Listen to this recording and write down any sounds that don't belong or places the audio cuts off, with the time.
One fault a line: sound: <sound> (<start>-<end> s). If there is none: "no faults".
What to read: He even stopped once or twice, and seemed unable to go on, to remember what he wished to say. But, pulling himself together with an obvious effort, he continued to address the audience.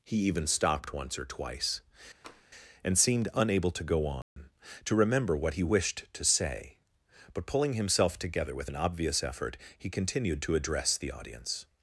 sound: tap (2.2-2.5 s)
sound: dropout (4.2-4.4 s)